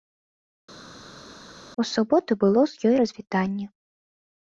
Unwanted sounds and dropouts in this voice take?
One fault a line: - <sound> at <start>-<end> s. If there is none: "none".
none